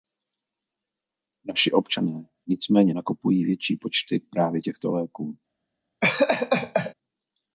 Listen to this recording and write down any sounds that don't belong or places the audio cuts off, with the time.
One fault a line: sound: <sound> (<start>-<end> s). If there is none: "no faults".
sound: laugh (6.0-6.9 s)